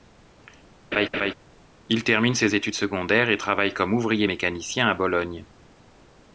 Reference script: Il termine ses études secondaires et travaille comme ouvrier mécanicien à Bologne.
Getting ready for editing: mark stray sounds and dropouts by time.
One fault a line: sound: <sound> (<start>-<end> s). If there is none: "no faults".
sound: laugh (0.9-1.3 s)